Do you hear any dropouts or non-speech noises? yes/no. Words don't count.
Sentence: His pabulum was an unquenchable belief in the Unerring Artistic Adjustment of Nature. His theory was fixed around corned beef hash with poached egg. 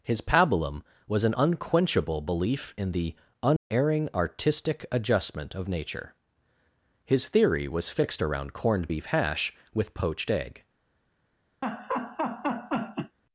yes